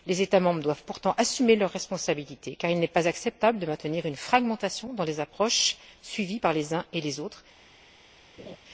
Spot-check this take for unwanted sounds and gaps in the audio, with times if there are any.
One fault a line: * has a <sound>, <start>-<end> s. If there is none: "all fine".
* has a laugh, 8.4-8.6 s